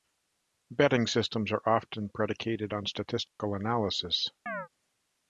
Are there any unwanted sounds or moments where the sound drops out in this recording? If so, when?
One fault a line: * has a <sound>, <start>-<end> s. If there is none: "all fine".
* has a dropout, 3.3-3.4 s
* has a chirp, 4.5-4.7 s